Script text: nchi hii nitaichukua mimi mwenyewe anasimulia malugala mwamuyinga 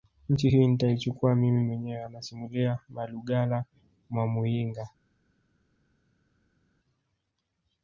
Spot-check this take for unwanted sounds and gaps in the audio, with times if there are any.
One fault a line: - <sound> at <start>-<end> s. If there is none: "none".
none